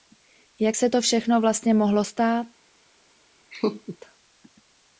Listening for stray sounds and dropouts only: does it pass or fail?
fail